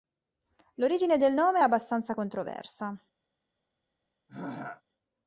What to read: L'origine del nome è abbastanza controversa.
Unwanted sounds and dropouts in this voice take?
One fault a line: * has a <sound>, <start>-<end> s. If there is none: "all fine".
* has a throat clearing, 4.3-4.8 s